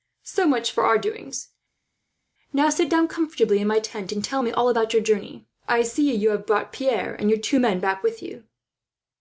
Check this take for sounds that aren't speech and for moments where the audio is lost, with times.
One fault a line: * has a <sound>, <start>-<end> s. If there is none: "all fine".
all fine